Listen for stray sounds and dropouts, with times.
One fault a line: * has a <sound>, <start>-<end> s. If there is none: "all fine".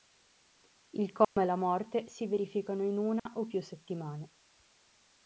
* has a dropout, 1.2-1.4 s
* has a dropout, 3.2-3.3 s